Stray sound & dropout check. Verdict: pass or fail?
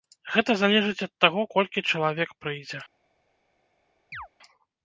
fail